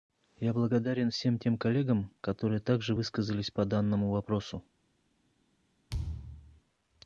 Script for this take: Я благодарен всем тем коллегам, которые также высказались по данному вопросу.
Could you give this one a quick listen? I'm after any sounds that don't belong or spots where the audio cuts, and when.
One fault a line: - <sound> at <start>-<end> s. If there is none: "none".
- thud at 5.9-6.6 s